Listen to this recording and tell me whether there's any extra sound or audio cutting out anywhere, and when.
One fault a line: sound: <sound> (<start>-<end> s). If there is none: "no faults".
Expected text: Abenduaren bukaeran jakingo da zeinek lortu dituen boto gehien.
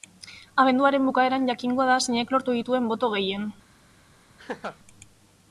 sound: laugh (4.4-4.8 s)